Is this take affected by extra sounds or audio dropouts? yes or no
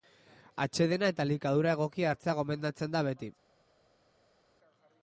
no